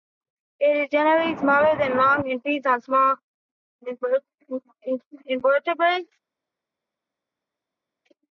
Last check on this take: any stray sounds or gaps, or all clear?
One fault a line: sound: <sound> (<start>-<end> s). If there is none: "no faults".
no faults